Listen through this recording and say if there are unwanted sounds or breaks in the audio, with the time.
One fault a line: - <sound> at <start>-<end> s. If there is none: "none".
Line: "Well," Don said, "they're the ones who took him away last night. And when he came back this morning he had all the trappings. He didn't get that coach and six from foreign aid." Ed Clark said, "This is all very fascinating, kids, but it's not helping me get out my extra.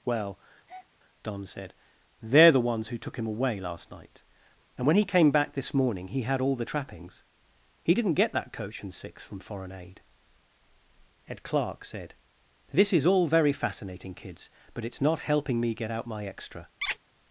- breath at 0.7-0.9 s
- squeak at 16.8-17.0 s